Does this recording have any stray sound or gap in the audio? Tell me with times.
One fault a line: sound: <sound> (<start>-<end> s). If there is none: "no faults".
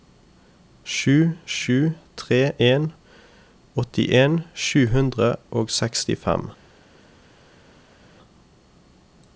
no faults